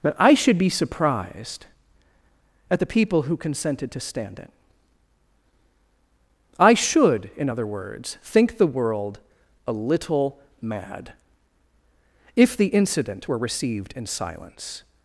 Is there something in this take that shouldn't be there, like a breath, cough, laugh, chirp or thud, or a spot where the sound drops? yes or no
no